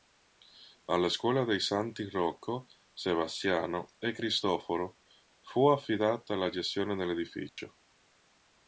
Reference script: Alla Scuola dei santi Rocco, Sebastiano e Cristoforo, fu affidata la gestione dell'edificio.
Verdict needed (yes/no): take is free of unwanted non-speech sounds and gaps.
no